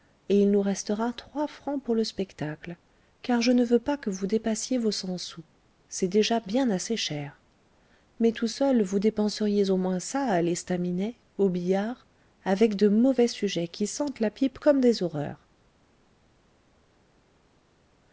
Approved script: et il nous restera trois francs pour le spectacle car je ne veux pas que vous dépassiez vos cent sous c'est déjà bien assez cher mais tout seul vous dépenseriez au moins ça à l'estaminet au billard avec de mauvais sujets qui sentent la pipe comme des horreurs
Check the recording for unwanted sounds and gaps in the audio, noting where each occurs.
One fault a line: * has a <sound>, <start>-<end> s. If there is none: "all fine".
all fine